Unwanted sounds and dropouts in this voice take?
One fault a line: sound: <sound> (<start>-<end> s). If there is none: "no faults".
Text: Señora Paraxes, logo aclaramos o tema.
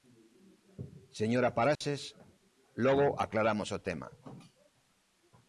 sound: dropout (1.8-1.8 s)